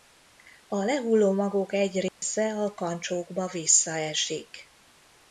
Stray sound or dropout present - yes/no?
yes